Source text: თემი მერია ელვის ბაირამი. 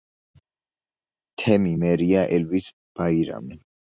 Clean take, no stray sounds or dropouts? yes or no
yes